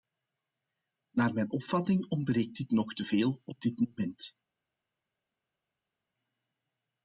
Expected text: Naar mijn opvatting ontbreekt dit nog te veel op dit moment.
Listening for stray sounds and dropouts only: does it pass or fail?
pass